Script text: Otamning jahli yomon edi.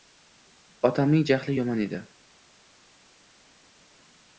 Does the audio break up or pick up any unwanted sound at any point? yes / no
no